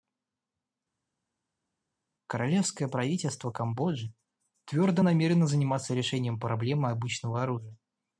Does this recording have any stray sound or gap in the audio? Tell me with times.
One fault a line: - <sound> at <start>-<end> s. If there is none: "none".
none